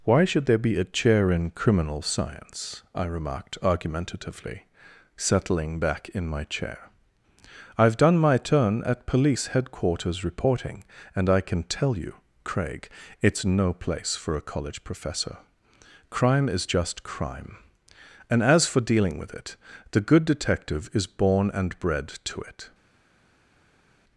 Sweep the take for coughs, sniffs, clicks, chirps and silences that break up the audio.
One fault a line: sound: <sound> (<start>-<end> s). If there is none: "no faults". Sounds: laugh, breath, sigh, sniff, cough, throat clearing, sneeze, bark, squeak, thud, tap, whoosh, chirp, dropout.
no faults